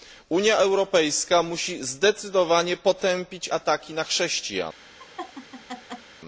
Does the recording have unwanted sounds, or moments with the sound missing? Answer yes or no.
yes